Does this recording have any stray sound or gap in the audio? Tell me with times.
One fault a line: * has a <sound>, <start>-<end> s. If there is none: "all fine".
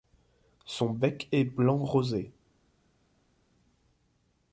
all fine